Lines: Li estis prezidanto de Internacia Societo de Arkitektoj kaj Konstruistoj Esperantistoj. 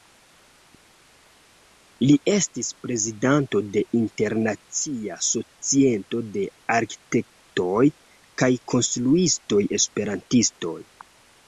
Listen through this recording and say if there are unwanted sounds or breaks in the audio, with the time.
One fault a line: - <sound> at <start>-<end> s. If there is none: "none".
none